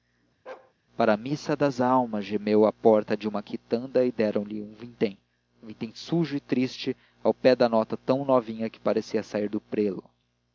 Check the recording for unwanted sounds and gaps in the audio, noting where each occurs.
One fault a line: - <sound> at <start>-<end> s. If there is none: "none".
- bark at 0.5-0.7 s